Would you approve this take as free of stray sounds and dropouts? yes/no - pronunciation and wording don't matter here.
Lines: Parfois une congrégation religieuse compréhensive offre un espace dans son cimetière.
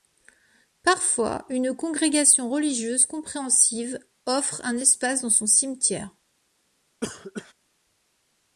no